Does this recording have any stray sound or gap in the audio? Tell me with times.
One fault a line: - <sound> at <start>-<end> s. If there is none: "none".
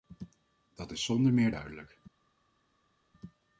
none